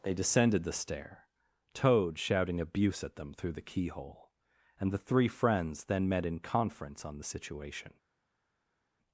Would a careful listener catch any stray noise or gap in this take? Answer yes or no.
no